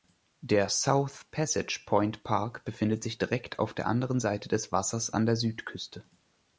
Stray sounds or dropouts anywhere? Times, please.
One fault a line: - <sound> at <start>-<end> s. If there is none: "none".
none